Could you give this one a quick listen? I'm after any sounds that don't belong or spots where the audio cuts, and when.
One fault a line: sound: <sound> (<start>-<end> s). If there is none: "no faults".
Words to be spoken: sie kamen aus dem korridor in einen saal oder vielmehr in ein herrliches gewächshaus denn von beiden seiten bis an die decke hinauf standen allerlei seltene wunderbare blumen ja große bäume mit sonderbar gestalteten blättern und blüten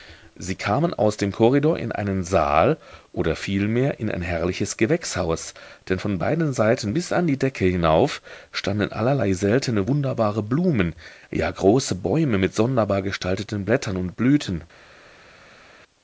no faults